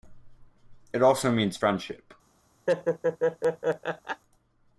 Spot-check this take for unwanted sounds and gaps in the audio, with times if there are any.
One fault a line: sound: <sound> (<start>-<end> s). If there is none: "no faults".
sound: laugh (2.7-4.2 s)